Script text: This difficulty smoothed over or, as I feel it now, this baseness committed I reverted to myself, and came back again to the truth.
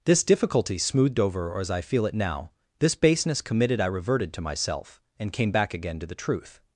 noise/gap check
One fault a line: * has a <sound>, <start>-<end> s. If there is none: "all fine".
all fine